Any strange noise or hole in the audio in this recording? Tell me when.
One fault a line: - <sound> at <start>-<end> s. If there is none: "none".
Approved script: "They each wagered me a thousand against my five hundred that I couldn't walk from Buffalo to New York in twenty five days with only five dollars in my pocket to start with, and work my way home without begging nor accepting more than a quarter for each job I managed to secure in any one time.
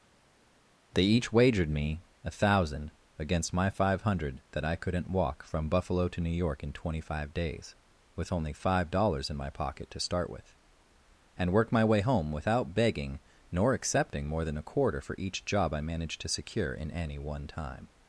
none